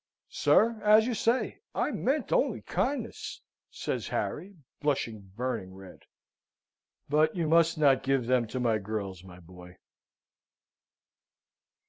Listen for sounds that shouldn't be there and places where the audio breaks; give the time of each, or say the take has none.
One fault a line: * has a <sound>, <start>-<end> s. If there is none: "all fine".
all fine